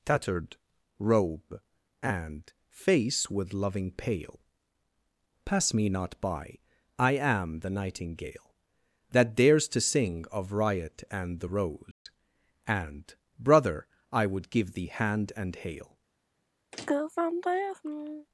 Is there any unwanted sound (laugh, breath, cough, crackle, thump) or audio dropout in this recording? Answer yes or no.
yes